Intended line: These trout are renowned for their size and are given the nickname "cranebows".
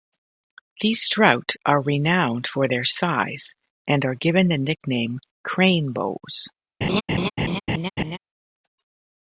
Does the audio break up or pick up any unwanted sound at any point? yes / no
yes